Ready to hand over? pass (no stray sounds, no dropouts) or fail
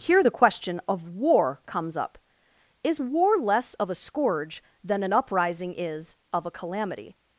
pass